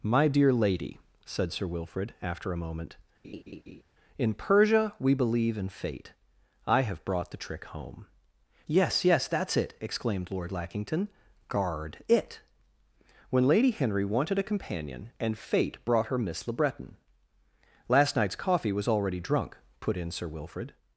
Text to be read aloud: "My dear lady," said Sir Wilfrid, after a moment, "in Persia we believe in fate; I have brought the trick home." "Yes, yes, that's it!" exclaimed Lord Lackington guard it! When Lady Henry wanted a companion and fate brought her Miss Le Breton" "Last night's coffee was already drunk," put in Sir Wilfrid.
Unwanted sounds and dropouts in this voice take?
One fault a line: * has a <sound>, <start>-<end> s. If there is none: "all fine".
* has a laugh, 3.2-3.8 s